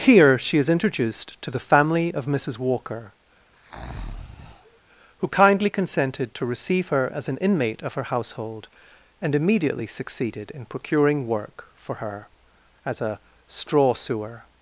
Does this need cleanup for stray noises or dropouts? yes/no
yes